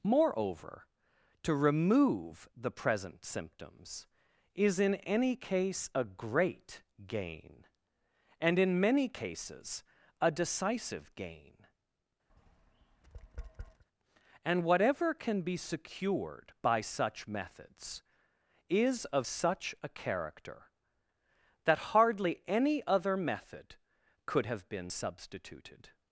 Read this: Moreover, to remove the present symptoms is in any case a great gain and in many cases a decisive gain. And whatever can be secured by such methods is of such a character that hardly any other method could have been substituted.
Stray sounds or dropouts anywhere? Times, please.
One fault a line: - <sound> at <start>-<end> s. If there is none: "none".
- tap at 12.3-13.8 s